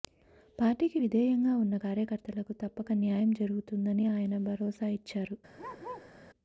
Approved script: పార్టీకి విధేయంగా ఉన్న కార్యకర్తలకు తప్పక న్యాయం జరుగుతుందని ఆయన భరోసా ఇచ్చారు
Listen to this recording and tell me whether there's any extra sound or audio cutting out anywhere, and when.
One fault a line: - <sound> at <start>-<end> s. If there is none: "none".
- bark at 5.6-6.1 s